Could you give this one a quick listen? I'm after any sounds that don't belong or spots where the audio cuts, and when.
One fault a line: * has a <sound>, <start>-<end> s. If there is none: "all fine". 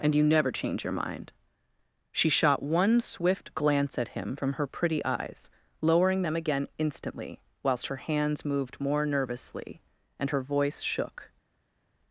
all fine